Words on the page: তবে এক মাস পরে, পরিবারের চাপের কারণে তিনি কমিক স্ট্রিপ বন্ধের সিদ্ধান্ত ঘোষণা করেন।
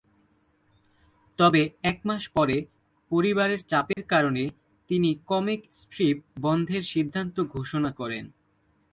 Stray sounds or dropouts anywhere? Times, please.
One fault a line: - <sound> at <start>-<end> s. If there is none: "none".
- dropout at 3.9-4.0 s